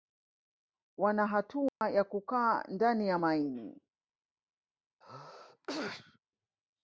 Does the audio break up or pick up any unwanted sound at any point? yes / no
yes